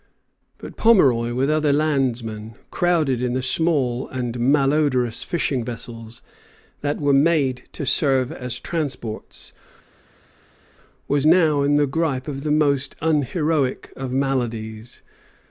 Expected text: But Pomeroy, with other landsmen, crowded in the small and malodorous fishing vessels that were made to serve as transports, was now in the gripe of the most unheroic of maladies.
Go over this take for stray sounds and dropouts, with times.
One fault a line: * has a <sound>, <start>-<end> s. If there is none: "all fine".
all fine